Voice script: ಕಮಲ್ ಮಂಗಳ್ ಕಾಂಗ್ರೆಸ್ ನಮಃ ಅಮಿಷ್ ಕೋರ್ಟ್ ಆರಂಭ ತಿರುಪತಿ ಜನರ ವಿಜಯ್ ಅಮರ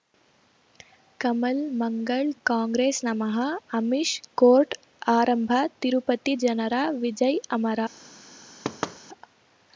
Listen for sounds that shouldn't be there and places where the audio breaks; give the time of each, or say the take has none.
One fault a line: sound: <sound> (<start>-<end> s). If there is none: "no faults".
sound: thud (8.6-9.0 s)